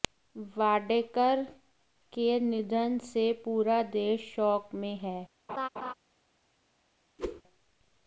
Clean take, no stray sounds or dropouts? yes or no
no